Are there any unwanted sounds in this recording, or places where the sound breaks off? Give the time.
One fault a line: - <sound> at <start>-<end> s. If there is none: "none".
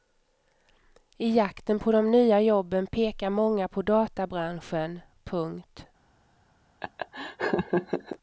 - laugh at 6.8-8.2 s